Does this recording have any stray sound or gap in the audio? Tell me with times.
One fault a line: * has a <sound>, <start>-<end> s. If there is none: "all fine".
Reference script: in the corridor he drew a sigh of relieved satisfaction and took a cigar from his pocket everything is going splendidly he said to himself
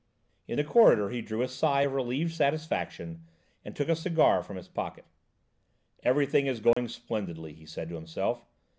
* has a dropout, 6.7-6.8 s